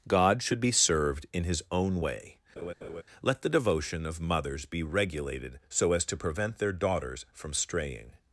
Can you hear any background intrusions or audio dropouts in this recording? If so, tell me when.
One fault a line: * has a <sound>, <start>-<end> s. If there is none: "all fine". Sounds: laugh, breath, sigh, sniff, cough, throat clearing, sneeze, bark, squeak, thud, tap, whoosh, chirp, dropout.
* has a laugh, 2.6-3.0 s